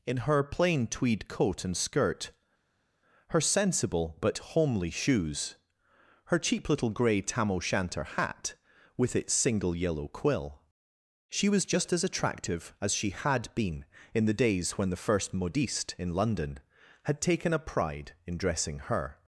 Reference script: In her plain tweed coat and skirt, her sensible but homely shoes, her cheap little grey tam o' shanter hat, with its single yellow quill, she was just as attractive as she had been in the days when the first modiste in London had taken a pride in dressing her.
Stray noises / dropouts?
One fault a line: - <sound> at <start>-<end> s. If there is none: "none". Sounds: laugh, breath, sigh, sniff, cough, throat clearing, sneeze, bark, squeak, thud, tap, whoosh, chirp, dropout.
none